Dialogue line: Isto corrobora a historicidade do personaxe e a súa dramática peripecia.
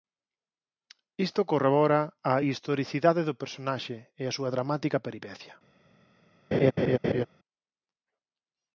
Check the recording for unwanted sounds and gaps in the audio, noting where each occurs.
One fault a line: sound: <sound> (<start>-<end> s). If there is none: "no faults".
sound: laugh (6.5-7.3 s)